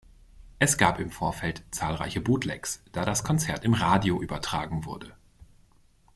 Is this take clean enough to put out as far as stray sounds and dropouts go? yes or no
yes